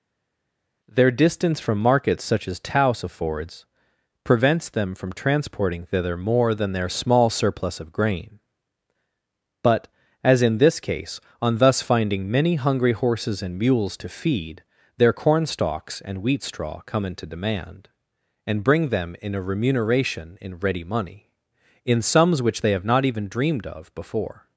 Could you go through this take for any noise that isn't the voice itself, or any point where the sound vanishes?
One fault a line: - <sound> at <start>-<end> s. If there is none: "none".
none